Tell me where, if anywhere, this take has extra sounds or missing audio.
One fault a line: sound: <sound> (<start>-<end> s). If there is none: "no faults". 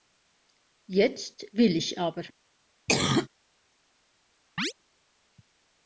sound: cough (2.9-3.3 s)
sound: chirp (4.6-4.7 s)